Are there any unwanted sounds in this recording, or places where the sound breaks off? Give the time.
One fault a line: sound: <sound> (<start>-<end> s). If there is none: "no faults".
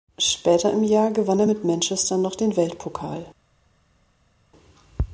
no faults